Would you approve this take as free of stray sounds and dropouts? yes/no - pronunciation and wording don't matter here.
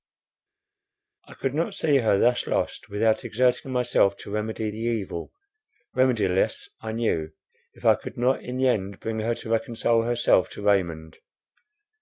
yes